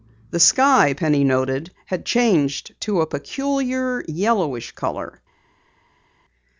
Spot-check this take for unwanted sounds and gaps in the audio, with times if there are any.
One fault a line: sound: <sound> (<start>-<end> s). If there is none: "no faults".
no faults